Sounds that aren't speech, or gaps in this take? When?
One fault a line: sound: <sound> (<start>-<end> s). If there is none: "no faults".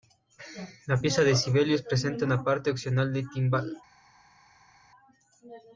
no faults